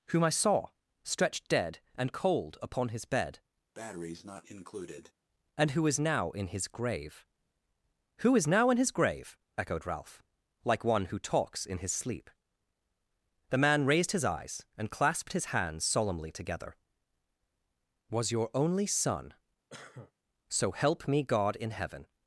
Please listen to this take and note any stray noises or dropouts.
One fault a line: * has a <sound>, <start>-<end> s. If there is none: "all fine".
* has a breath, 3.7-5.1 s
* has a cough, 19.7-20.1 s